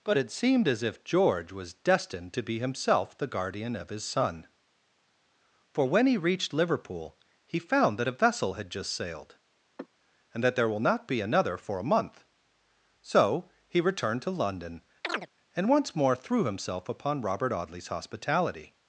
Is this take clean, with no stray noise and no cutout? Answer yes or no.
no